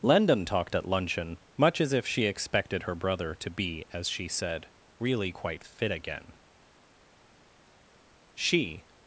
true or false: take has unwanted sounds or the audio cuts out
false